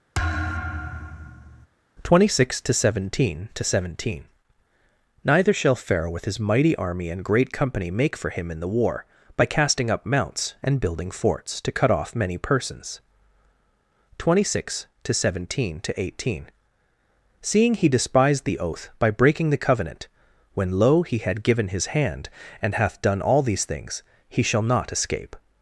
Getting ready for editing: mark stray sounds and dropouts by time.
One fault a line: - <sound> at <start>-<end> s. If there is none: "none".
- thud at 0.1-1.7 s